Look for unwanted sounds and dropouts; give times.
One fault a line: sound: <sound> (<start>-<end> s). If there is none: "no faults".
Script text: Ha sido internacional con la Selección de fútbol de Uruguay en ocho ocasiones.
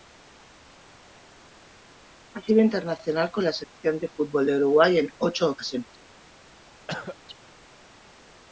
sound: dropout (3.6-3.8 s)
sound: cough (6.9-7.2 s)